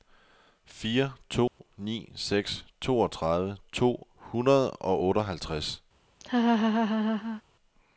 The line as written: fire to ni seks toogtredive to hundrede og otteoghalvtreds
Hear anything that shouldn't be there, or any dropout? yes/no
yes